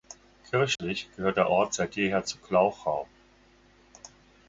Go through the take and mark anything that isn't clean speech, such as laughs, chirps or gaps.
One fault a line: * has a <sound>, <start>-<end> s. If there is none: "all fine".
* has a dropout, 0.8-0.8 s